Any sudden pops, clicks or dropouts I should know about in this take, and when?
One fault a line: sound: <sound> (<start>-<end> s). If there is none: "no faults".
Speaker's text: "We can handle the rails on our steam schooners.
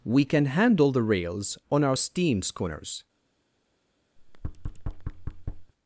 sound: thud (4.2-5.7 s)